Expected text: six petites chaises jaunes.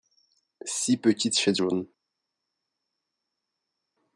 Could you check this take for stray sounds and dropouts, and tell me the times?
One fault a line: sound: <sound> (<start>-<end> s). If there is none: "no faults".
no faults